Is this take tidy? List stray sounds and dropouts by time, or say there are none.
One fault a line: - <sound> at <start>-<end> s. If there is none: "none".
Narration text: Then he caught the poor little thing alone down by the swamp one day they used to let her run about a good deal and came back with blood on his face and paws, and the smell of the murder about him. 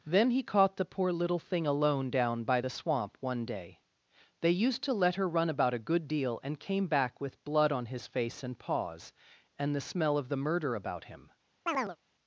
- chirp at 11.7-12.0 s